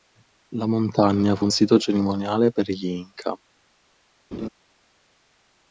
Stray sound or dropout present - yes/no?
yes